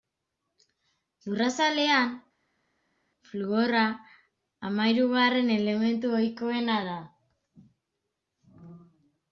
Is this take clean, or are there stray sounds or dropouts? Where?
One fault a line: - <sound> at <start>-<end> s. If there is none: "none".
none